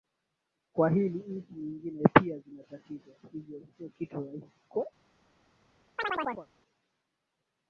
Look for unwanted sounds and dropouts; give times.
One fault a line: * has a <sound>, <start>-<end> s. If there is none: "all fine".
* has a chirp, 6.0-6.5 s